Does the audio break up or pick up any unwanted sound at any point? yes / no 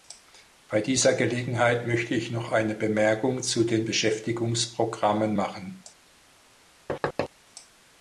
yes